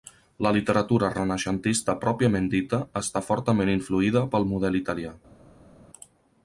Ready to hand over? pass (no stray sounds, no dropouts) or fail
pass